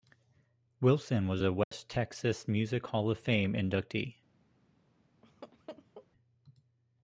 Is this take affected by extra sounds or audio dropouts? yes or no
yes